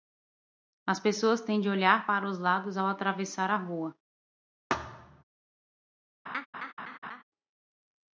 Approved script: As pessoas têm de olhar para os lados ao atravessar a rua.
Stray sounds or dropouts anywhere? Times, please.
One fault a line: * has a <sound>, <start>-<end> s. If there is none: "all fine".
* has a thud, 4.7-5.2 s
* has a laugh, 6.3-7.2 s